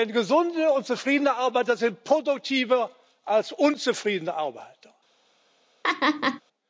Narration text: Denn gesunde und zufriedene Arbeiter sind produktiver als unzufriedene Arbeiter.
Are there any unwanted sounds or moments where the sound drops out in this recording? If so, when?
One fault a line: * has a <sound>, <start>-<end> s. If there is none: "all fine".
* has a laugh, 5.8-6.4 s